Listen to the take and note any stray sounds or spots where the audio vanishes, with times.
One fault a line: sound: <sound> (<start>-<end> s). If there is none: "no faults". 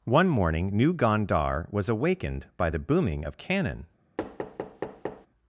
sound: thud (4.2-5.3 s)